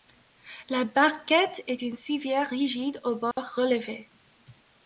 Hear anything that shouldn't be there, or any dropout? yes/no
yes